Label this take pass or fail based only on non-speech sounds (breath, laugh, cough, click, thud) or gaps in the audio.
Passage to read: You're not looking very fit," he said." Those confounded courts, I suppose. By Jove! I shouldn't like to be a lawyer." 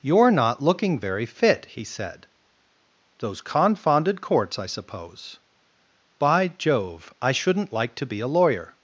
pass